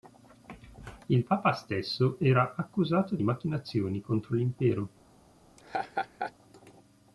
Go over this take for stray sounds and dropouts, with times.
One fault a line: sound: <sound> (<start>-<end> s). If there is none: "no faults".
sound: laugh (5.6-6.3 s)